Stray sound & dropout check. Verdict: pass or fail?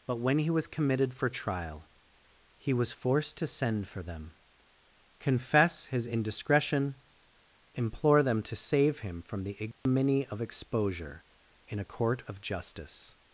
fail